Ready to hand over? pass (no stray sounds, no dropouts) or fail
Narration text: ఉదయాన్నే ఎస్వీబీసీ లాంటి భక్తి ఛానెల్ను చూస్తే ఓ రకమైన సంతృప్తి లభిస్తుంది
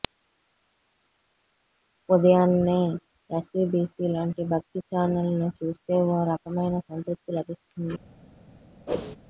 fail